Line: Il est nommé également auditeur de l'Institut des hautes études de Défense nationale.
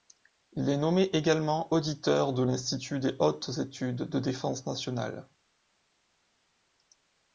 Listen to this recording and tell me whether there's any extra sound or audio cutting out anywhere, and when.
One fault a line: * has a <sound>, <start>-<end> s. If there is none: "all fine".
all fine